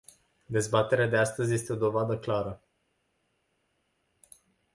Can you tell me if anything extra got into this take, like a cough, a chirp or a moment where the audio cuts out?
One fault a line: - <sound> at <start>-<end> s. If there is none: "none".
none